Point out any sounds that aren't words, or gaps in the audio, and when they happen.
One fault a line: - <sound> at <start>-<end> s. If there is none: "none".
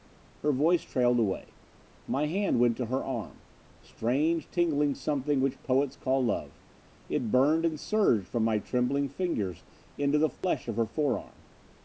- dropout at 10.4-10.4 s